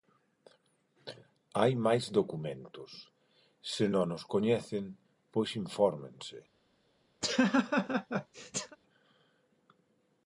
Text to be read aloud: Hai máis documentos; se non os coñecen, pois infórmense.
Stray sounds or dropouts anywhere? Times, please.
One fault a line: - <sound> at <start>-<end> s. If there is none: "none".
- laugh at 7.2-8.8 s